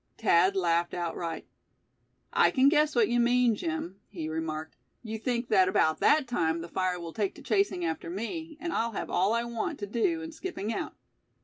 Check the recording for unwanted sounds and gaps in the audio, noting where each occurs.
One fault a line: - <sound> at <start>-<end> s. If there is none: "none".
none